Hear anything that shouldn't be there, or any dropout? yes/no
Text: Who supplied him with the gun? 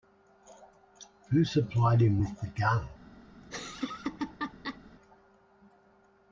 yes